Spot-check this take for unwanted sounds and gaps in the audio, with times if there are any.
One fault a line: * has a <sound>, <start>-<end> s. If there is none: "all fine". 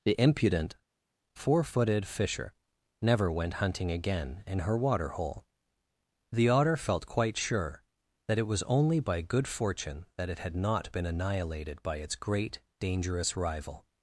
all fine